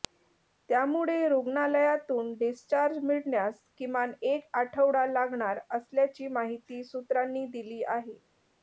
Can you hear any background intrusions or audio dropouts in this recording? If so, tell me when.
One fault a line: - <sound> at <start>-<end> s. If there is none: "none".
none